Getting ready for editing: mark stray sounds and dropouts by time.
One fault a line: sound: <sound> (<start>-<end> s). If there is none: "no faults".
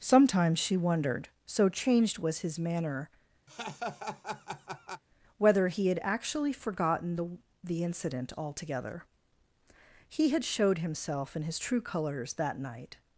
sound: laugh (3.5-5.0 s)